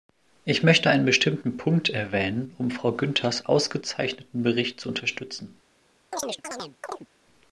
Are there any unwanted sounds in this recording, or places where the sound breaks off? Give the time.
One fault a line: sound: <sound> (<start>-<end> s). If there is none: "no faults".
sound: chirp (6.1-7.1 s)